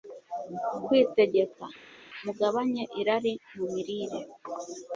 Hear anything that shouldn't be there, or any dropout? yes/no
no